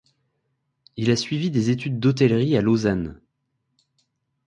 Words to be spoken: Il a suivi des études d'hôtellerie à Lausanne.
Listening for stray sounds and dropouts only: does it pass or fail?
pass